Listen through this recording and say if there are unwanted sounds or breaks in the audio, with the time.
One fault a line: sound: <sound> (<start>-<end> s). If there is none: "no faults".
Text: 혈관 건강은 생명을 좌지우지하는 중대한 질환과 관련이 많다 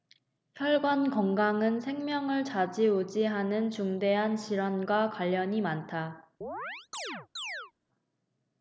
sound: chirp (6.4-7.7 s)